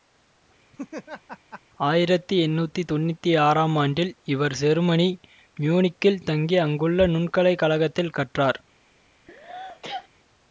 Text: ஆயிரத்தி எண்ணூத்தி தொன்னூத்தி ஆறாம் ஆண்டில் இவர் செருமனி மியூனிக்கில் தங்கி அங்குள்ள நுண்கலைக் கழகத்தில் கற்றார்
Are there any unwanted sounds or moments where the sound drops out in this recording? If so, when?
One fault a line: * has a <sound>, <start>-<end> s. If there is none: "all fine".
* has a laugh, 0.7-1.6 s
* has a sneeze, 9.3-10.1 s